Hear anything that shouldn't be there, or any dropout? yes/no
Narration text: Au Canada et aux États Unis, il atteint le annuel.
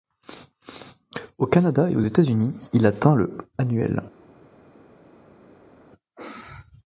no